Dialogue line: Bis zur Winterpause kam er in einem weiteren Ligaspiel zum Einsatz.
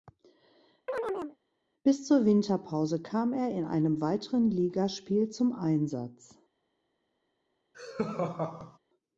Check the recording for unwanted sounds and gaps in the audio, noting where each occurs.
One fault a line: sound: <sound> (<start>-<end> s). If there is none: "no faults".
sound: chirp (0.9-1.4 s)
sound: laugh (7.7-8.8 s)